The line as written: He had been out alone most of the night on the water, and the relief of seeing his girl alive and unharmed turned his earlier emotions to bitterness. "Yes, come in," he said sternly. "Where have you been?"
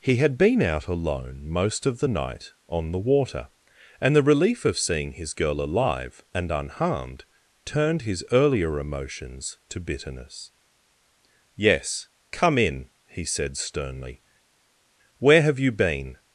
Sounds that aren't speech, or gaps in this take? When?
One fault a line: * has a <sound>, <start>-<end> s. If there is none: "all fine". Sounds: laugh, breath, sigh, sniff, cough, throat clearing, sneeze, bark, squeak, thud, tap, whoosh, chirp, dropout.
all fine